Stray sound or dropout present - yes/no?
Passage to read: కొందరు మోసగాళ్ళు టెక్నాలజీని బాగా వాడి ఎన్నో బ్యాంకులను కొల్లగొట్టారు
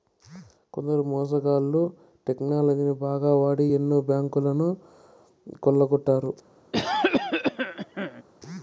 yes